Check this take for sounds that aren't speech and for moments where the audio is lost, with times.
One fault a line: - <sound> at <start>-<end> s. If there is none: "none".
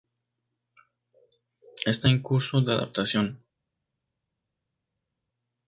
none